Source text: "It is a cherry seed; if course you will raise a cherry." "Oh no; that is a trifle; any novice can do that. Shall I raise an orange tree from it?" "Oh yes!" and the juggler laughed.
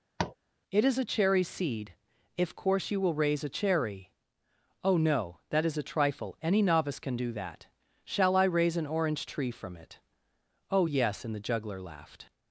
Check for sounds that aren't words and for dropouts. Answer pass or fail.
fail